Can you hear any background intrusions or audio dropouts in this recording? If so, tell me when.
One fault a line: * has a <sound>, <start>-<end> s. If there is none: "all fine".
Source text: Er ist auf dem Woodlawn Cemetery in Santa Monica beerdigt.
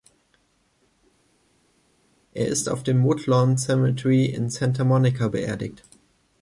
all fine